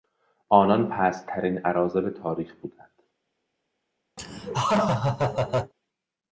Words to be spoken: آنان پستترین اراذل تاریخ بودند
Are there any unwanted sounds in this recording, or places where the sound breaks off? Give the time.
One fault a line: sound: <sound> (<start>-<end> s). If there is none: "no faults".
sound: laugh (4.2-5.7 s)